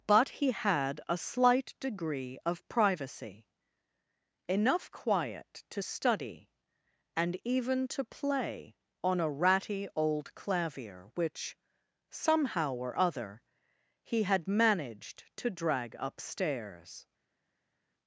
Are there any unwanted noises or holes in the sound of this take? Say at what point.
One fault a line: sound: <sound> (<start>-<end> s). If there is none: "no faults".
no faults